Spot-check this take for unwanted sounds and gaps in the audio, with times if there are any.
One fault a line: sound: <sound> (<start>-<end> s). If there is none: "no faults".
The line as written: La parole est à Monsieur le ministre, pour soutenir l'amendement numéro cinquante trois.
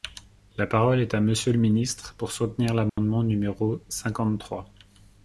sound: dropout (2.9-3.0 s)